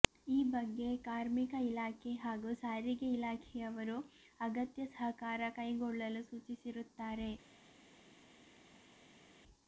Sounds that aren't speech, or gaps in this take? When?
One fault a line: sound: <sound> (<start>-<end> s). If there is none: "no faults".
no faults